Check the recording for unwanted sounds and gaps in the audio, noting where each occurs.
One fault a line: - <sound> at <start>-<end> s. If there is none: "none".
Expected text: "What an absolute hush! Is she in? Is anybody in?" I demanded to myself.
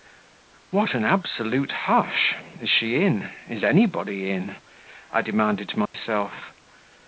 - dropout at 5.9-5.9 s